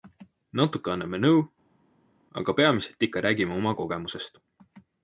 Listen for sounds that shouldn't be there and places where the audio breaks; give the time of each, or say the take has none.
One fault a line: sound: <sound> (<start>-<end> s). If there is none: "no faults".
no faults